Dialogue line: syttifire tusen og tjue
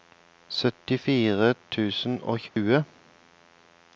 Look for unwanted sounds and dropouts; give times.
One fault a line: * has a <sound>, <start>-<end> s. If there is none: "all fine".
* has a dropout, 2.5-2.6 s